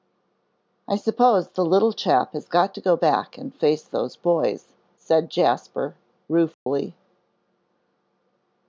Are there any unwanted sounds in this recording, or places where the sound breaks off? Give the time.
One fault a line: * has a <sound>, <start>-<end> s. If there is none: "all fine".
* has a dropout, 6.5-6.7 s